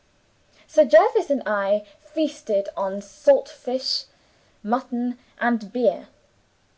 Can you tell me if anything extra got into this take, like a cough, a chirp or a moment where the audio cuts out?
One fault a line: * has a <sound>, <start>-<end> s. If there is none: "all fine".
all fine